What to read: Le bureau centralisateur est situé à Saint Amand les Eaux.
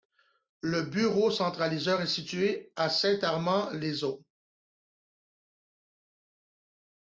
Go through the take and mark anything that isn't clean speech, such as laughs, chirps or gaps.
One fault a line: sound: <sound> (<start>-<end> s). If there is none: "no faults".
no faults